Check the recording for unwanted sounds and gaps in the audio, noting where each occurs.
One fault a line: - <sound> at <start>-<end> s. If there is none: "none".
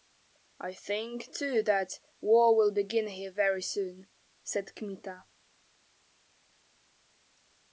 none